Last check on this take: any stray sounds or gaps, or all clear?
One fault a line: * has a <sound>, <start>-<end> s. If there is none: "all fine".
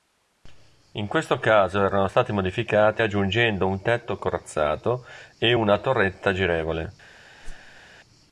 * has a whoosh, 7.4-7.8 s